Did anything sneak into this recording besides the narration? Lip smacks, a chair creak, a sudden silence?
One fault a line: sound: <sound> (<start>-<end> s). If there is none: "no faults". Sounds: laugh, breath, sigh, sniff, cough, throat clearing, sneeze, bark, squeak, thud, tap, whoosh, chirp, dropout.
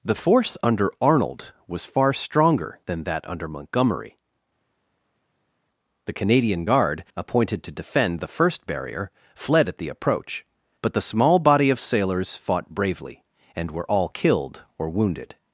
no faults